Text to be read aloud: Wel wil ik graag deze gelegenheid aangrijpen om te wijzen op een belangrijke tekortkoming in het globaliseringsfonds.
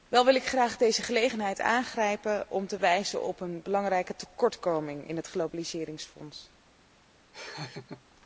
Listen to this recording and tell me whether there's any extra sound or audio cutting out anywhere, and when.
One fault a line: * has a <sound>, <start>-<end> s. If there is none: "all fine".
* has a laugh, 7.3-8.0 s